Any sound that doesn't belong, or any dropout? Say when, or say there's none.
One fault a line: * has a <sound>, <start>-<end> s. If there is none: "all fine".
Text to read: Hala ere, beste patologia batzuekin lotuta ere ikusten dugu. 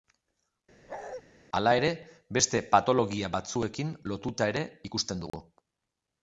* has a bark, 0.9-1.2 s
* has a dropout, 5.3-5.3 s